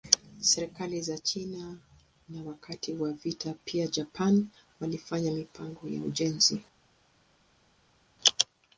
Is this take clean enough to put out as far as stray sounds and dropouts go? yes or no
yes